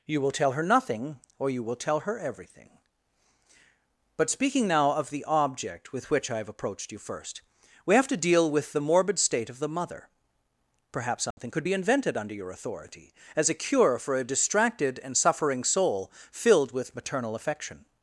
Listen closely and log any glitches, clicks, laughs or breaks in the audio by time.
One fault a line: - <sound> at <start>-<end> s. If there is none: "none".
- dropout at 11.3-11.4 s